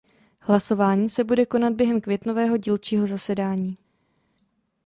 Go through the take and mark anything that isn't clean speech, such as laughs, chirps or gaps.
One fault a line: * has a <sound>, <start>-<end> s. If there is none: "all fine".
all fine